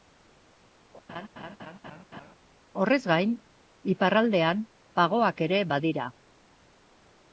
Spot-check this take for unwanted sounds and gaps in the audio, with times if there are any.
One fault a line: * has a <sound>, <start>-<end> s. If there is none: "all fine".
* has a laugh, 1.1-2.3 s